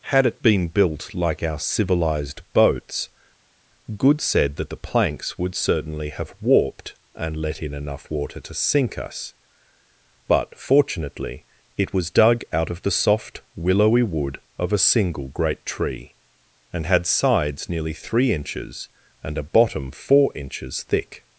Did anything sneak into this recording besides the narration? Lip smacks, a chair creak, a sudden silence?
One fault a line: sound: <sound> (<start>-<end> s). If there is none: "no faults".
no faults